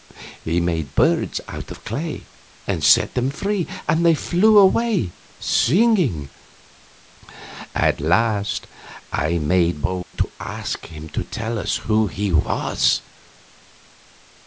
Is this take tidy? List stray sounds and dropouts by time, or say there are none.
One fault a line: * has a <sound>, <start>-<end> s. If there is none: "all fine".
* has a dropout, 10.0-10.1 s